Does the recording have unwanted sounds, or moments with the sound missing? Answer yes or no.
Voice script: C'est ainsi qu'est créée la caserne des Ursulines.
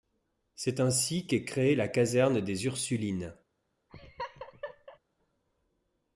yes